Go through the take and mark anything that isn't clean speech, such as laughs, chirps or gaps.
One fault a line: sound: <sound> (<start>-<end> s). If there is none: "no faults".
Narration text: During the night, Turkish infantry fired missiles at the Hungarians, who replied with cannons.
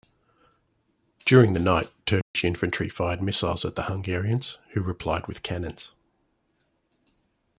sound: dropout (2.2-2.3 s)